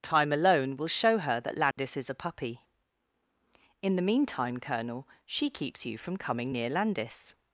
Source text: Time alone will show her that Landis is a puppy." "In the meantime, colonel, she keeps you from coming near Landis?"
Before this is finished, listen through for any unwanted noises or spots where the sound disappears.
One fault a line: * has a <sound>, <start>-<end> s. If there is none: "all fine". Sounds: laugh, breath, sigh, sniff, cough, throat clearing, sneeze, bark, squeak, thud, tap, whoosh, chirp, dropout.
* has a dropout, 1.7-1.8 s